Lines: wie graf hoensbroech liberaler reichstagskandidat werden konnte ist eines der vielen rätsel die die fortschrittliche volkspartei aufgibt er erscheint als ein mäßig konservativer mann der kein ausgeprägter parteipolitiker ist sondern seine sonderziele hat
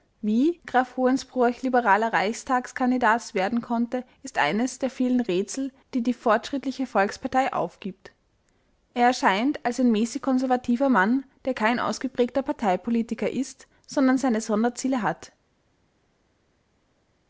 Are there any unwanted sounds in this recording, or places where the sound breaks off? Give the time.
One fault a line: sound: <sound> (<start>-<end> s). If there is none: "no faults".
no faults